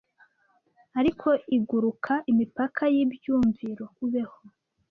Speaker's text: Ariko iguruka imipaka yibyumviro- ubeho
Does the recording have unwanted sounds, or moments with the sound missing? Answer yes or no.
no